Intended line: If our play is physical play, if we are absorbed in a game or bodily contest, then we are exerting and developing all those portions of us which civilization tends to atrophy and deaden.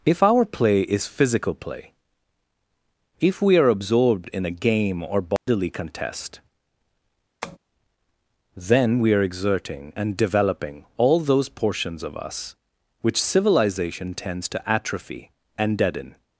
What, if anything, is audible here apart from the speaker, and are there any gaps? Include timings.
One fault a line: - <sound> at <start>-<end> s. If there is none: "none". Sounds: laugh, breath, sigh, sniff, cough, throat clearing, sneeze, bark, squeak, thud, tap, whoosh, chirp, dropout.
- dropout at 5.4-5.5 s
- tap at 7.4-7.6 s